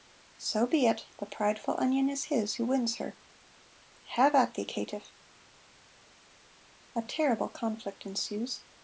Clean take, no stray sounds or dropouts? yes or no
yes